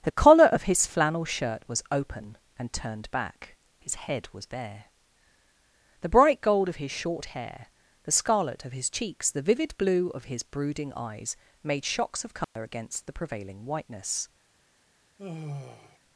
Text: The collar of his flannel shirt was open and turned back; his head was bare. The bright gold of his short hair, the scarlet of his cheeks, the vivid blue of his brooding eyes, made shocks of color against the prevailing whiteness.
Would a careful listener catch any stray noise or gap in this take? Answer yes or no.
yes